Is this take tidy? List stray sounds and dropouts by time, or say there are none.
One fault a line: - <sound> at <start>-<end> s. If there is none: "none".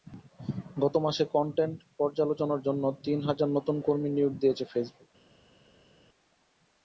none